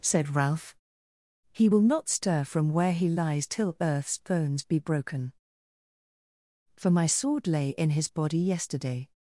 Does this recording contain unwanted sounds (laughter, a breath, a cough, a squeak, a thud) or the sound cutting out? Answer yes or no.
no